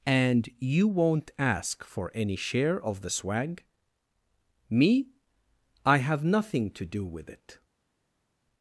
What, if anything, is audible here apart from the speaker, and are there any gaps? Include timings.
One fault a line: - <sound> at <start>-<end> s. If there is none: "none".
none